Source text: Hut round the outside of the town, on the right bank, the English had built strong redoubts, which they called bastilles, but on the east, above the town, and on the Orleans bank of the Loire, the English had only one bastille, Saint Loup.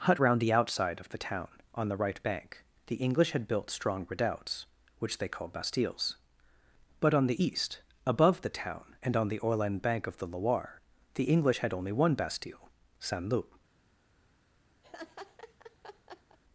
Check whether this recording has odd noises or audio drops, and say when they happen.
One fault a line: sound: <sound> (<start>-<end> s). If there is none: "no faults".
sound: laugh (14.8-16.4 s)